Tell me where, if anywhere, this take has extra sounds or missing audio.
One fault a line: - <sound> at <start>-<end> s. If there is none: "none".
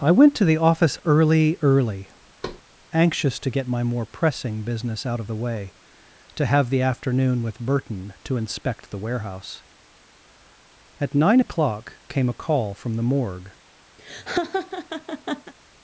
- thud at 2.4-2.6 s
- laugh at 14.0-15.5 s